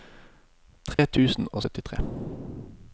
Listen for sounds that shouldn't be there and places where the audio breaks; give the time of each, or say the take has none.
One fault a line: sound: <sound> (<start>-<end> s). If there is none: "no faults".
sound: dropout (0.9-1.0 s)